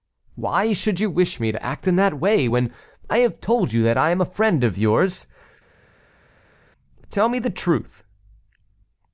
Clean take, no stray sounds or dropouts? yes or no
yes